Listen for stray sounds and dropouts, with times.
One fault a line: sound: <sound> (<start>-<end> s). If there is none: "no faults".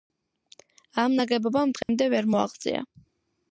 sound: dropout (1.8-1.9 s)